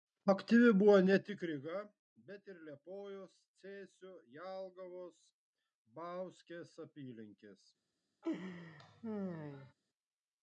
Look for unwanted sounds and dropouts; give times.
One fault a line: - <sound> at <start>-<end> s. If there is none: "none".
- laugh at 8.2-9.7 s